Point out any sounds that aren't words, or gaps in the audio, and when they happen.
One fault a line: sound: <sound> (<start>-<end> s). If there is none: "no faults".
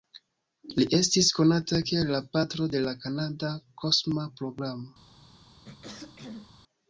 sound: throat clearing (5.6-6.5 s)